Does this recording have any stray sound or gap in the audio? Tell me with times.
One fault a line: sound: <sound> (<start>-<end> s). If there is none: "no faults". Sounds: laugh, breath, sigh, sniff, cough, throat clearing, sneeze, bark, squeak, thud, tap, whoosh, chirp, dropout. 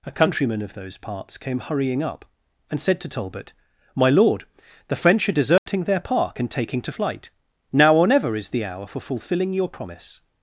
sound: dropout (5.6-5.7 s)